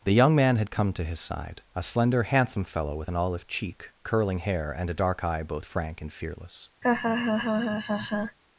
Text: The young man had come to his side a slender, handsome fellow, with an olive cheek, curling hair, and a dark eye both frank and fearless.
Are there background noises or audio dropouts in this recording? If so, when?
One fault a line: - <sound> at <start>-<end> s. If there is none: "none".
- laugh at 6.8-8.4 s